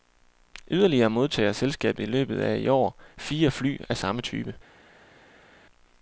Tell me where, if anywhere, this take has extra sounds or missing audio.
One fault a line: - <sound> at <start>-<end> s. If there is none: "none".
none